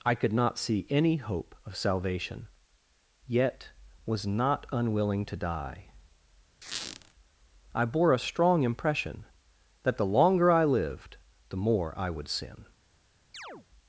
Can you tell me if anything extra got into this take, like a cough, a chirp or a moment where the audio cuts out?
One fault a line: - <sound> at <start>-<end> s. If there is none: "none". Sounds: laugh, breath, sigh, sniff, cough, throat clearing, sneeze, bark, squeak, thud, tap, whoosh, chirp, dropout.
- squeak at 6.6-7.1 s
- chirp at 13.3-13.7 s